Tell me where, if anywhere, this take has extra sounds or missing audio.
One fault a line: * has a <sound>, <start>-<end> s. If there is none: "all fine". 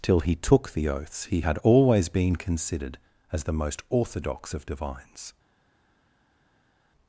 all fine